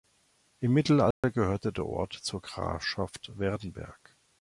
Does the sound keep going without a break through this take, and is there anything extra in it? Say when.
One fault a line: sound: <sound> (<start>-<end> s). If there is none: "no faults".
sound: dropout (1.1-1.2 s)